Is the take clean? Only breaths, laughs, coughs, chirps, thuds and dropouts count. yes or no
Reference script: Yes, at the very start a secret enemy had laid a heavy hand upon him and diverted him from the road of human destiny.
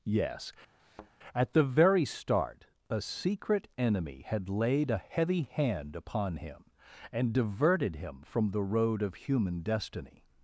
no